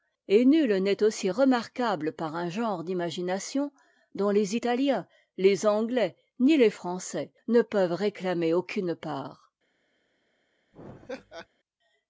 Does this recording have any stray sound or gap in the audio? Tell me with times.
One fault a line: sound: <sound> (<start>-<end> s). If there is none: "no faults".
sound: laugh (10.7-11.5 s)